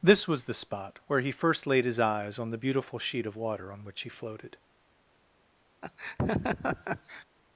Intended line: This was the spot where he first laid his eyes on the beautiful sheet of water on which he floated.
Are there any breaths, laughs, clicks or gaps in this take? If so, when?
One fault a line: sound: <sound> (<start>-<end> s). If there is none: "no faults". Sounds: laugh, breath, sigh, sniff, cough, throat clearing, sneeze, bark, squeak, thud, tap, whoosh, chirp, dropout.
sound: laugh (5.8-7.2 s)